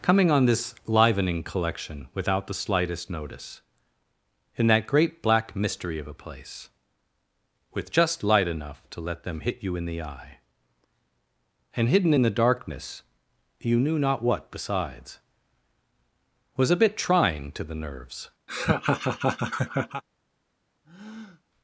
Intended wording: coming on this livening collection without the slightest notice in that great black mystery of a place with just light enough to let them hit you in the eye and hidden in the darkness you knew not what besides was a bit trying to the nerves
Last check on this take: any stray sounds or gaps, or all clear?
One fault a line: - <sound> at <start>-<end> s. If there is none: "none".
- laugh at 18.5-20.0 s
- breath at 20.8-21.4 s